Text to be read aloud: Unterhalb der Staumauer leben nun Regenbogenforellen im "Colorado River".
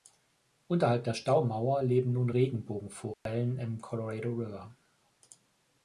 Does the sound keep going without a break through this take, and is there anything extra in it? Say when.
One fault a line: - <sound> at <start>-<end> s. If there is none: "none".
- dropout at 3.1-3.3 s